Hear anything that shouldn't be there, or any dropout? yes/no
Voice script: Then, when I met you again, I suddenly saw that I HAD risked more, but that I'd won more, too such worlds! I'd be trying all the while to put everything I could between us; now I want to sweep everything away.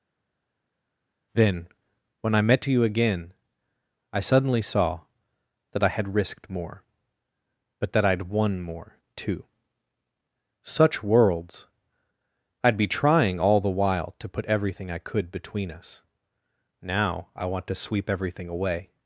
no